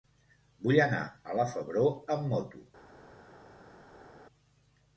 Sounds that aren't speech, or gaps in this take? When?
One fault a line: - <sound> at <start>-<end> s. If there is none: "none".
none